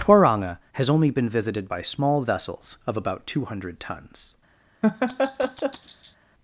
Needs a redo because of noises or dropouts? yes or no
yes